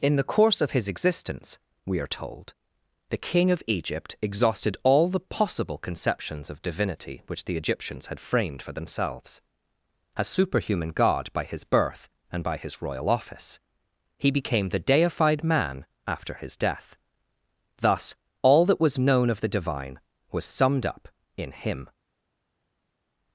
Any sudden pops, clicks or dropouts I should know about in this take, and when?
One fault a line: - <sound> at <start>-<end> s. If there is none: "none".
none